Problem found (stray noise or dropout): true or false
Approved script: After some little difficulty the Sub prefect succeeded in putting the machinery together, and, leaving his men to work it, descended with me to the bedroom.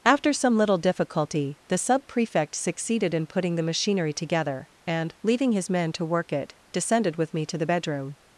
false